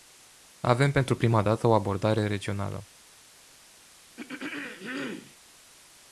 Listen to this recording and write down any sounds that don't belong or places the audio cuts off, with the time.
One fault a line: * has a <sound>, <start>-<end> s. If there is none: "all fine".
* has a throat clearing, 4.2-5.4 s